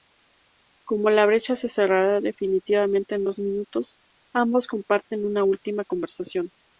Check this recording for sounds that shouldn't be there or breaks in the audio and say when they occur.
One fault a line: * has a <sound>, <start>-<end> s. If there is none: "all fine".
all fine